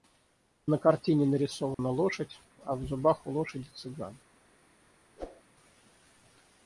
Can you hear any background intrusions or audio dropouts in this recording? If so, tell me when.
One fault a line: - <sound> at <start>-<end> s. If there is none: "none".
- dropout at 1.7-1.8 s
- whoosh at 5.2-5.4 s